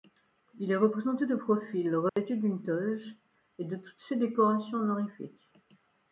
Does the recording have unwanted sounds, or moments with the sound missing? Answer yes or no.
yes